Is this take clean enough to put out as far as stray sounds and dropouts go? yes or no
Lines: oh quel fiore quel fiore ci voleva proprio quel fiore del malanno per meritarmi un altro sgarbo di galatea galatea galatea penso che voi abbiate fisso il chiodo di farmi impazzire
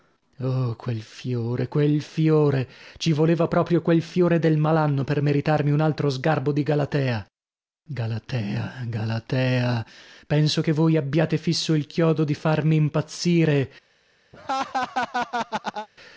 no